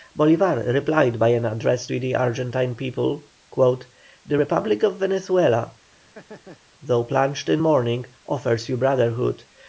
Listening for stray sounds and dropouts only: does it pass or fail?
fail